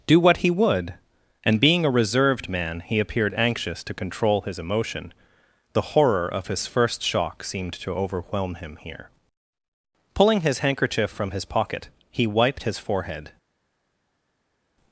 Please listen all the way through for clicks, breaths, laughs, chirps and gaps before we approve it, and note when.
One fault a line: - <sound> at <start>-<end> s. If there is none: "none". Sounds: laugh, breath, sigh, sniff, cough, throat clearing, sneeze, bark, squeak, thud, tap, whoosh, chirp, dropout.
none